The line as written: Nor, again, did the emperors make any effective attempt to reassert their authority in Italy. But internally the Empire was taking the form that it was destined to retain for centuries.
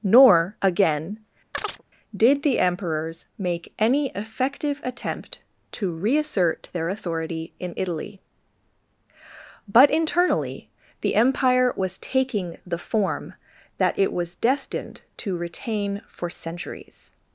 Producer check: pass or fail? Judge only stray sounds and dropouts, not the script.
fail